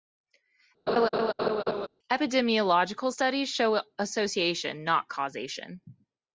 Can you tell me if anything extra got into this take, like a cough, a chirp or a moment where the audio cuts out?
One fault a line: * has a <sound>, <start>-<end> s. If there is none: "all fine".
* has a laugh, 0.9-1.9 s